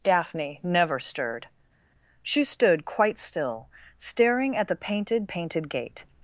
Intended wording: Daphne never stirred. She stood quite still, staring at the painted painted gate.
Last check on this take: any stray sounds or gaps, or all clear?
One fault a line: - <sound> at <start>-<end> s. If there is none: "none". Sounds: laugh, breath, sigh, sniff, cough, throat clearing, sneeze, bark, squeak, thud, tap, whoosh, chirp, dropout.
none